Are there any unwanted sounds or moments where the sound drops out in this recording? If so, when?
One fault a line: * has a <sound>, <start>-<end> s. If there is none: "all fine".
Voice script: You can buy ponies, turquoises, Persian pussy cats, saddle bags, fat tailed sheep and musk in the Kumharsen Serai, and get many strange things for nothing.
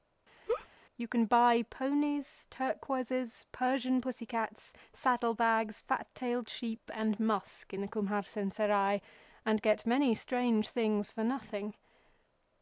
* has a laugh, 0.5-0.7 s